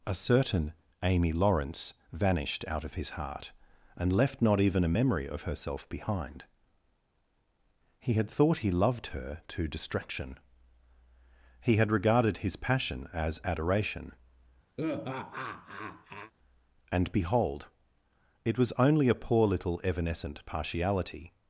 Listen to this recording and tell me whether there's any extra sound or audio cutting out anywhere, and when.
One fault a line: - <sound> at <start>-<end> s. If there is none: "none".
- laugh at 14.8-16.3 s